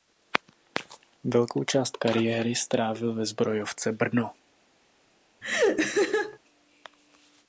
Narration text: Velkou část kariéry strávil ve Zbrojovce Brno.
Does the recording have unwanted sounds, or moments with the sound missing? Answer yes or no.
yes